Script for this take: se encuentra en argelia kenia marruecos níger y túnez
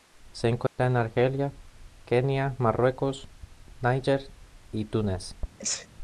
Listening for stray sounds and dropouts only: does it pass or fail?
fail